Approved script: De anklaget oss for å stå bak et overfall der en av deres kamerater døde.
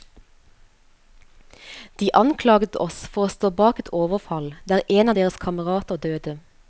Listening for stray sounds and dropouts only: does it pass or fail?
pass